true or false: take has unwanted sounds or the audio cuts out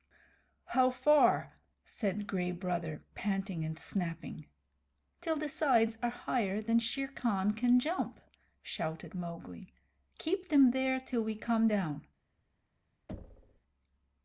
true